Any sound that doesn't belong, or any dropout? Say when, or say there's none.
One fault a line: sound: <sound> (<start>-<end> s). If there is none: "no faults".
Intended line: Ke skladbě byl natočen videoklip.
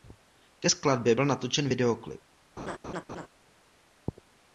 sound: laugh (2.6-3.3 s)